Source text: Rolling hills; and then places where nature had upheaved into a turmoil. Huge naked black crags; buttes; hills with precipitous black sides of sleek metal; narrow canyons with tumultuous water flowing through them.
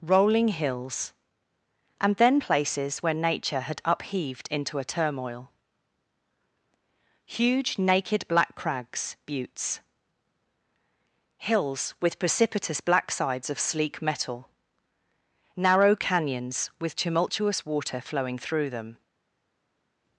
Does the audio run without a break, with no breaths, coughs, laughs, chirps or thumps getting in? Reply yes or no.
yes